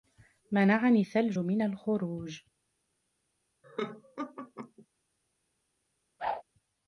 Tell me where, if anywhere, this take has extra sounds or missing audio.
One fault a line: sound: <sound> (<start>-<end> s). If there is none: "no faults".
sound: laugh (3.6-4.9 s)
sound: whoosh (6.2-6.4 s)